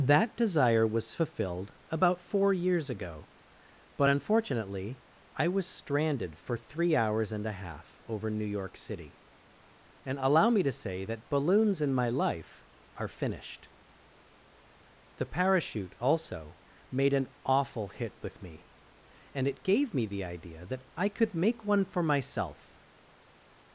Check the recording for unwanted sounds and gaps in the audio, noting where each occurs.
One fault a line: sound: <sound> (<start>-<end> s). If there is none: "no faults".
no faults